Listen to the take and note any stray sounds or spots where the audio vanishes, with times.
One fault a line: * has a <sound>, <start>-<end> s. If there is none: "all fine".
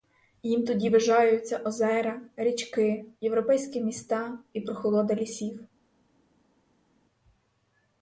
all fine